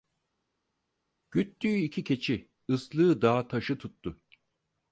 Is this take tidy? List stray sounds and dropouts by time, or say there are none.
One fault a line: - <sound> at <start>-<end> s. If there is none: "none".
none